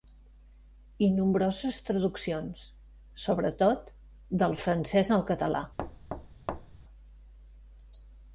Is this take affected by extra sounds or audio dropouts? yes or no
yes